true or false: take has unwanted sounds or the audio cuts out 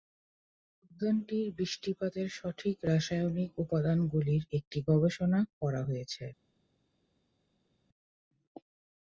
false